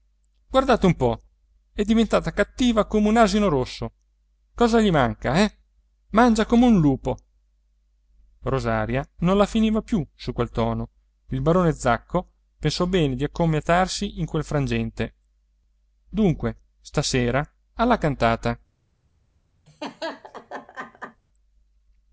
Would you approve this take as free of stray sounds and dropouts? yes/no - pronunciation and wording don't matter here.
no